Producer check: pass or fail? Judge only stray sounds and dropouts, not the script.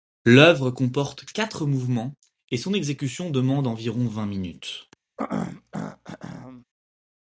fail